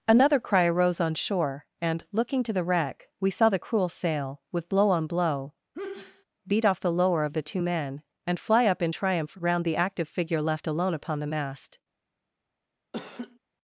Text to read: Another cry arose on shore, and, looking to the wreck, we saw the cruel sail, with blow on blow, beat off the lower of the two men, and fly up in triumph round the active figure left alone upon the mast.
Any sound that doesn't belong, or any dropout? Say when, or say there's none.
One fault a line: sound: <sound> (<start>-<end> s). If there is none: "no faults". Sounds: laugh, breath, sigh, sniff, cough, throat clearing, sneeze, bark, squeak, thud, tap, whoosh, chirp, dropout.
sound: sneeze (5.7-6.2 s)
sound: laugh (12.9-13.4 s)